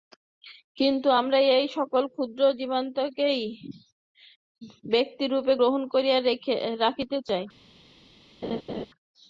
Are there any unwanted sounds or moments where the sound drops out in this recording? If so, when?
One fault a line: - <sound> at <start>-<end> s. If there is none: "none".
- laugh at 8.4-8.9 s